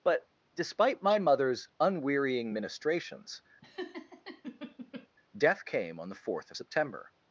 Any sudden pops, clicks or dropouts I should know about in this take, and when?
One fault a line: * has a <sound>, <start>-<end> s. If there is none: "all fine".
* has a laugh, 3.6-5.1 s